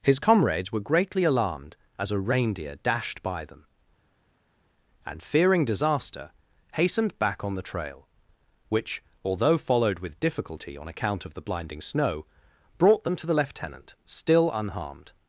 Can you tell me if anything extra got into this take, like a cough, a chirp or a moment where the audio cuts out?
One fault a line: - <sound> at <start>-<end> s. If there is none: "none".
none